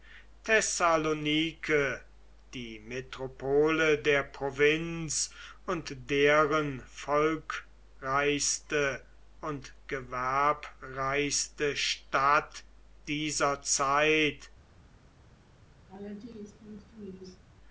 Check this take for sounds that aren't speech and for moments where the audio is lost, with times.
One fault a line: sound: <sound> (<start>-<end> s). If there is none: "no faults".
sound: laugh (15.9-17.4 s)